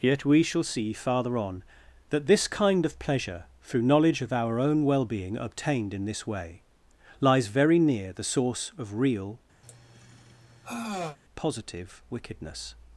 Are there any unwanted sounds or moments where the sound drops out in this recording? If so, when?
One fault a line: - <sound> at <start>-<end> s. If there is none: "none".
- sigh at 9.6-11.2 s